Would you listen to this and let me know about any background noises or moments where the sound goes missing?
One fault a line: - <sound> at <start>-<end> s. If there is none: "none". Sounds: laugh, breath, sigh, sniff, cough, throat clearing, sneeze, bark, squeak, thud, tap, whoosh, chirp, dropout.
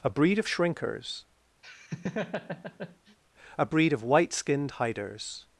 - laugh at 1.6-3.2 s